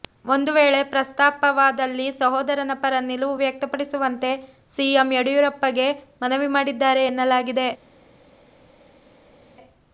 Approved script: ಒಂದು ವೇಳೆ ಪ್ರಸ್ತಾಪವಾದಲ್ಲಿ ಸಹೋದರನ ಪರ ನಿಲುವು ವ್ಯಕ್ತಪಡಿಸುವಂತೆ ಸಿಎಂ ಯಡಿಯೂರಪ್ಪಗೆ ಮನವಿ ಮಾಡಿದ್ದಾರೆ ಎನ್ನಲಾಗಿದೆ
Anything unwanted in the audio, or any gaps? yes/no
no